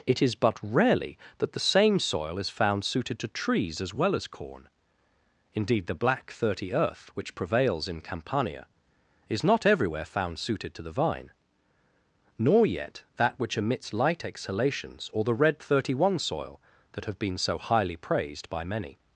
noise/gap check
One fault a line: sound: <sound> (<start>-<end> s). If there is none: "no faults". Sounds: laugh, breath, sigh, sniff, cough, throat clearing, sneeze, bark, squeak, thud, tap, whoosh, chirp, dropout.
no faults